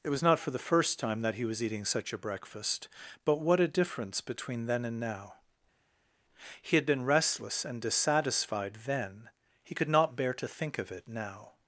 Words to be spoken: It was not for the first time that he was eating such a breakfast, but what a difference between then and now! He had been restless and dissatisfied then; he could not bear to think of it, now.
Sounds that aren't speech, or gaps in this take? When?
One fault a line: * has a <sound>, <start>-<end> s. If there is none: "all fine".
all fine